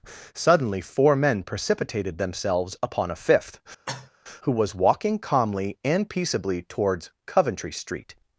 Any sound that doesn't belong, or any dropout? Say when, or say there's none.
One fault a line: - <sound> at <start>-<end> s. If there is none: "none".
- cough at 3.9-4.1 s